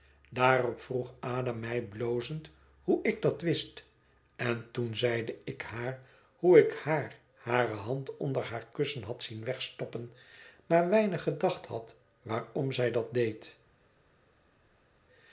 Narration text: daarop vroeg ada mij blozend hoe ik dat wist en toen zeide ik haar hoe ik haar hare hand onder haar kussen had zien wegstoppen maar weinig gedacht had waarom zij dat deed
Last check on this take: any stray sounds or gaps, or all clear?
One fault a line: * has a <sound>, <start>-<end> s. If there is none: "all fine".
all fine